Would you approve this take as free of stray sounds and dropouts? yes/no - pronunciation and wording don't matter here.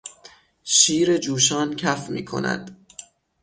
yes